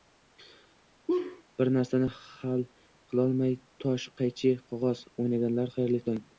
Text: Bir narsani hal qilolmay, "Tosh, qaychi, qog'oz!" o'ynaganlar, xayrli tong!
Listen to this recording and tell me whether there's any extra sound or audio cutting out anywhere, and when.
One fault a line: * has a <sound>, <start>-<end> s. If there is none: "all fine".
* has a laugh, 1.1-1.4 s